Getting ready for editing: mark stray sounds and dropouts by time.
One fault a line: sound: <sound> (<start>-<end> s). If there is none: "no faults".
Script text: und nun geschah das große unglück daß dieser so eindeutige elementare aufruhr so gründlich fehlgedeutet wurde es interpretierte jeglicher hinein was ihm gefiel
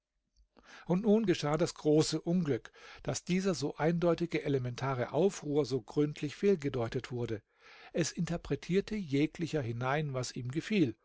no faults